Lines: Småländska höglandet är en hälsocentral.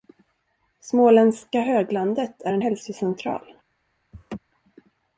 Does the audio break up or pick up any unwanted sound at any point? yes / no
yes